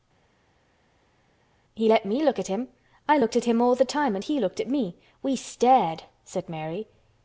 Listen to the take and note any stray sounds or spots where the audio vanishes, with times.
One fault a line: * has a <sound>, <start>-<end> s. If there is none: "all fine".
all fine